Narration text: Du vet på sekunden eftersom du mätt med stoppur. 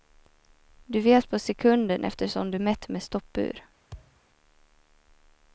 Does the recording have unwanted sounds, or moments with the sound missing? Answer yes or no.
yes